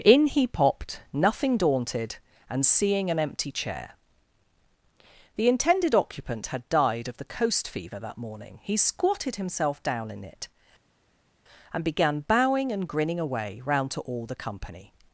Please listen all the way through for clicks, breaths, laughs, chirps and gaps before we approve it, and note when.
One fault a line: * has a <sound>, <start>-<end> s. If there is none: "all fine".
all fine